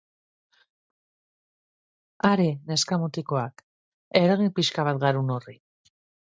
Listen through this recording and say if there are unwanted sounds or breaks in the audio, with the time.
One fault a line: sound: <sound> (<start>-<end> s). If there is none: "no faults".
no faults